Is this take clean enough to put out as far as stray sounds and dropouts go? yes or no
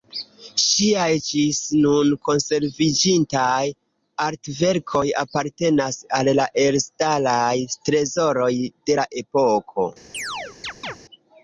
no